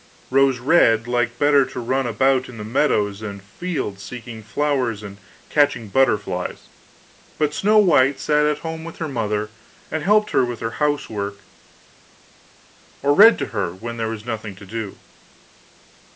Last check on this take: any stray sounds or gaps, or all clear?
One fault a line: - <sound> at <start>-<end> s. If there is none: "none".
none